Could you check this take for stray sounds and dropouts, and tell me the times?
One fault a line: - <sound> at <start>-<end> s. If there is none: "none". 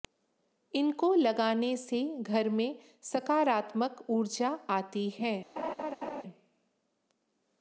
- laugh at 5.6-6.2 s